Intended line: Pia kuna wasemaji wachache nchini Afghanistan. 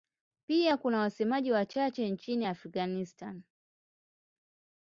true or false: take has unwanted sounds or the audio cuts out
false